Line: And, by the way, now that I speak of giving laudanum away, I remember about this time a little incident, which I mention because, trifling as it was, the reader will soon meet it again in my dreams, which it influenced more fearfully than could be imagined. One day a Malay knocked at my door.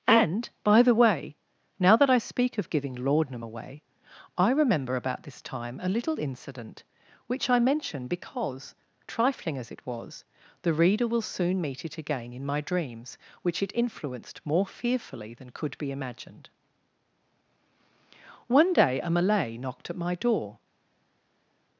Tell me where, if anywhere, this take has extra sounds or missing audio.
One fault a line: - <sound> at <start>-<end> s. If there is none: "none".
none